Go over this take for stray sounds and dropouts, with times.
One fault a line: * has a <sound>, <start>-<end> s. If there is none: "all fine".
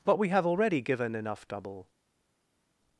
all fine